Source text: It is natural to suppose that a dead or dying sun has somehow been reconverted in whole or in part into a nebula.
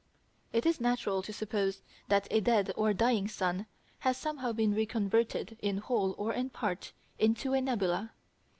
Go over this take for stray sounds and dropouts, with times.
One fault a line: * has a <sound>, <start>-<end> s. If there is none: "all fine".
all fine